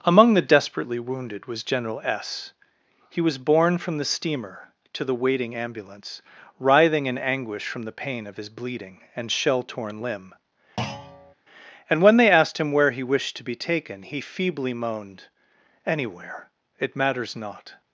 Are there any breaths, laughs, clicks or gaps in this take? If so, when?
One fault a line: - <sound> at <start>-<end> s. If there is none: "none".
- thud at 10.8-11.3 s